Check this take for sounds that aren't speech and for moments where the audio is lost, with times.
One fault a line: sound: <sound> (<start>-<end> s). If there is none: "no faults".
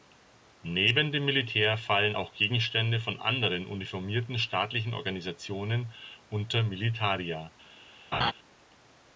sound: laugh (8.1-8.3 s)